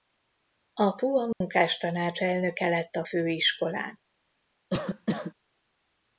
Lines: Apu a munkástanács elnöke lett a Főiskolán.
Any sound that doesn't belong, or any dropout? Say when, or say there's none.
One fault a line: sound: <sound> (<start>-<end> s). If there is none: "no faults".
sound: dropout (1.3-1.4 s)
sound: cough (4.7-5.3 s)